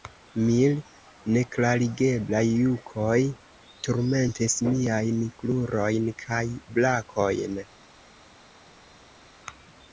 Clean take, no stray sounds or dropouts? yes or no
yes